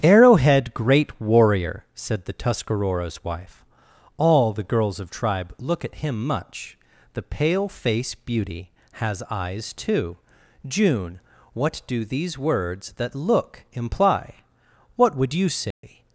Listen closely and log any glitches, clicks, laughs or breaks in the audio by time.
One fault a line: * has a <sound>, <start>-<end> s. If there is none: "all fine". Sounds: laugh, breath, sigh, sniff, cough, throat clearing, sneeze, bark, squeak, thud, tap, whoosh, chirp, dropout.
* has a dropout, 15.7-15.8 s